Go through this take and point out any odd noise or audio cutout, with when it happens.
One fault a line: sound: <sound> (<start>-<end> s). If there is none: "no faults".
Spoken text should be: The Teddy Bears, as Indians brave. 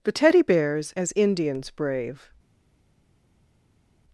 no faults